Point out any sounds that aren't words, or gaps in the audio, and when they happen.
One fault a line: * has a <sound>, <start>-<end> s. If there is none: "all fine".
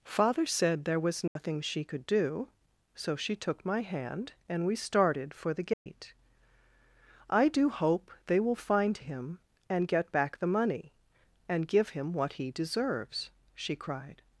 * has a dropout, 1.3-1.4 s
* has a dropout, 5.7-5.9 s